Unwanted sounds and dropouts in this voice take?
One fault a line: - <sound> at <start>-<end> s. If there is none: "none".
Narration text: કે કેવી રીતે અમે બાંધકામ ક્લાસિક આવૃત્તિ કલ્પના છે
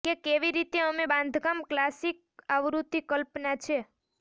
none